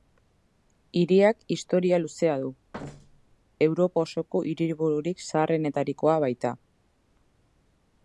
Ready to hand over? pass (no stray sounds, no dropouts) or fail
fail